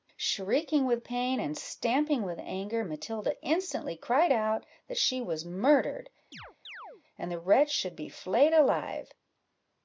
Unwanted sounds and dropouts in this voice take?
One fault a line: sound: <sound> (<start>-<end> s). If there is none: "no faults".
sound: chirp (6.3-7.0 s)